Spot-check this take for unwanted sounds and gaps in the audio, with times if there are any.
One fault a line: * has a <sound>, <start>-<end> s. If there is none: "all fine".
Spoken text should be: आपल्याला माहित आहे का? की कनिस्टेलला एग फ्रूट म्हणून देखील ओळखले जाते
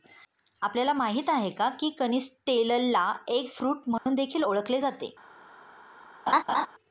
* has a dropout, 4.0-4.1 s
* has a laugh, 6.3-6.7 s